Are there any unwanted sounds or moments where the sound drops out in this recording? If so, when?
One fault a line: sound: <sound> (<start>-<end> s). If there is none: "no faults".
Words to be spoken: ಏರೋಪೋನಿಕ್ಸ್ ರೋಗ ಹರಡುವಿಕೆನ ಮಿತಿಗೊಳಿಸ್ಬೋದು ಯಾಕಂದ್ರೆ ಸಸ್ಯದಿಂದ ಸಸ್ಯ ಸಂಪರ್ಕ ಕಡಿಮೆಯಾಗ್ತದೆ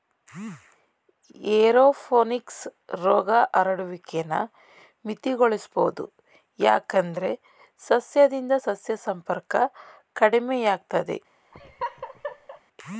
sound: laugh (11.5-12.6 s)